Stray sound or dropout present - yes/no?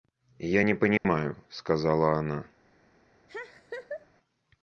yes